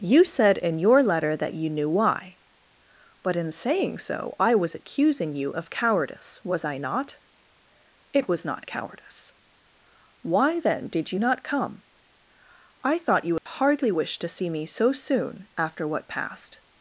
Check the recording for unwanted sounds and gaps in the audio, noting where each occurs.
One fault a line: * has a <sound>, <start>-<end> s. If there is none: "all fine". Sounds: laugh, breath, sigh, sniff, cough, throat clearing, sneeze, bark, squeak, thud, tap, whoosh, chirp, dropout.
* has a dropout, 13.4-13.5 s